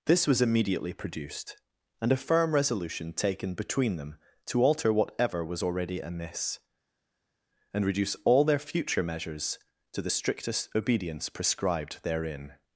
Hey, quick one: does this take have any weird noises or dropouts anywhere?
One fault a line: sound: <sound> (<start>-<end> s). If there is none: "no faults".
no faults